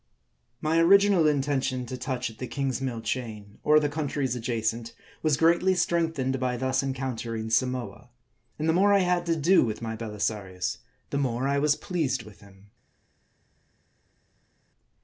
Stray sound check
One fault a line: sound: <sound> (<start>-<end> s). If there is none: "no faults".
no faults